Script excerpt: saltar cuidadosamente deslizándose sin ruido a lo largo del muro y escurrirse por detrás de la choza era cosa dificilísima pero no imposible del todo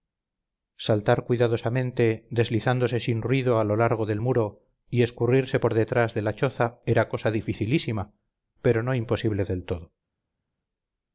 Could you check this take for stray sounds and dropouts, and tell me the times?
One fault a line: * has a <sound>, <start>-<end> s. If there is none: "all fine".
all fine